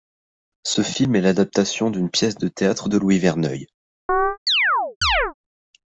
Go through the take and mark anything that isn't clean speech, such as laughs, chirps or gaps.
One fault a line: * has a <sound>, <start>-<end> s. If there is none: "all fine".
* has a chirp, 4.1-5.3 s